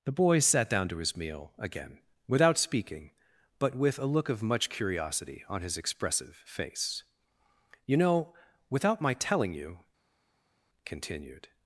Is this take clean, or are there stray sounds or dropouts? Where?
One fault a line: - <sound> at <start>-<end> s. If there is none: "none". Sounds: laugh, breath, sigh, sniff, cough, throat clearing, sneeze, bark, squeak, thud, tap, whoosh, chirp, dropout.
none